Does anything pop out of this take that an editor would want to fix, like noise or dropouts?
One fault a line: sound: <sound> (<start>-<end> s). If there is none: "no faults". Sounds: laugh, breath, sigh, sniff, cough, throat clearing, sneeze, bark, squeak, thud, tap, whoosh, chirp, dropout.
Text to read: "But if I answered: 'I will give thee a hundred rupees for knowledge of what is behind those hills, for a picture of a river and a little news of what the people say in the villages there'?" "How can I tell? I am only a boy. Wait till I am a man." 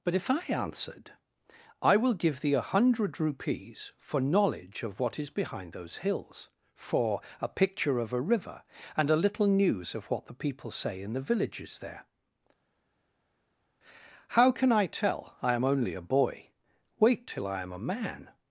no faults